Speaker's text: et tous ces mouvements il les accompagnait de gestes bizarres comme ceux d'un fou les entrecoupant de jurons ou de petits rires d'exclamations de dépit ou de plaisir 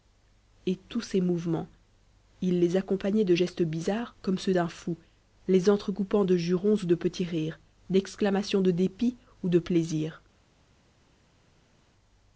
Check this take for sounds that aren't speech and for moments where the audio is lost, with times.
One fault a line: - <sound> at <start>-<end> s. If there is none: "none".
none